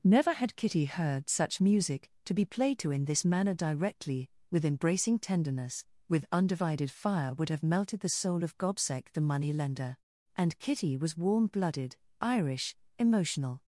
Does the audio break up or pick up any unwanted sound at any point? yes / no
no